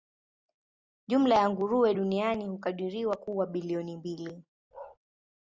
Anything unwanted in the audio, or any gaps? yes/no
yes